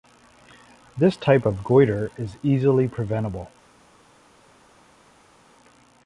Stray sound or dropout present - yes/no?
no